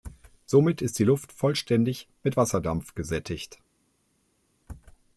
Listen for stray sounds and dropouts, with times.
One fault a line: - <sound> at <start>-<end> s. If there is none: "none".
none